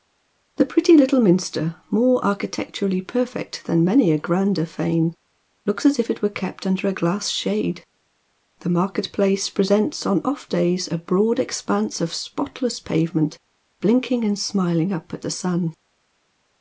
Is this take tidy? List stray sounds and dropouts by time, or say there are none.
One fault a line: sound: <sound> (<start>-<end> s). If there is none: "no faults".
no faults